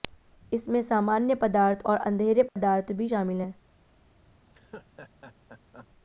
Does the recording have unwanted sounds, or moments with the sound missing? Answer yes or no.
yes